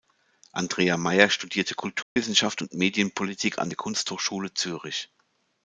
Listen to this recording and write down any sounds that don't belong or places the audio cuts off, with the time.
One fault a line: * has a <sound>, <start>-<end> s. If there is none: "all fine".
* has a dropout, 2.0-2.2 s